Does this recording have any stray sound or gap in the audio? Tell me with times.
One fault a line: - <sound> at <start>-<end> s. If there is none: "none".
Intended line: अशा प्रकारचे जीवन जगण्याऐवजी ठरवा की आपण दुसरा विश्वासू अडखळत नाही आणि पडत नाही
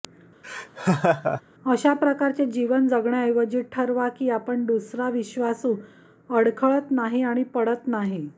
- laugh at 0.4-1.4 s